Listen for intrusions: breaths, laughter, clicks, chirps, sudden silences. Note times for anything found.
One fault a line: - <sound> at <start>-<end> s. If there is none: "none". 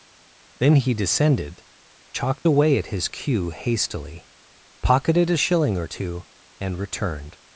none